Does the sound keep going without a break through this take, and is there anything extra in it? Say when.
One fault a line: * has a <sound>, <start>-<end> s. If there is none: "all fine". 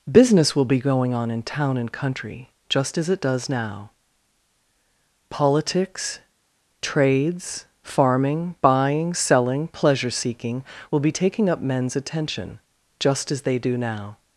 all fine